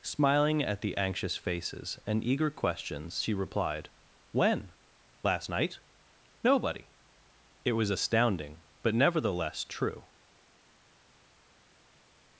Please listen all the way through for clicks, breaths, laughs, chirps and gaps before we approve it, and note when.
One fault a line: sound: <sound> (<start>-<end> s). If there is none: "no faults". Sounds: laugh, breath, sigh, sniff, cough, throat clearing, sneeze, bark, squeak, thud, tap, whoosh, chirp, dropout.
no faults